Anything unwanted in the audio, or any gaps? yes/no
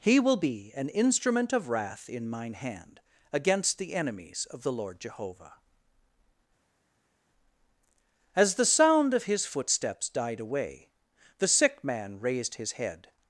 no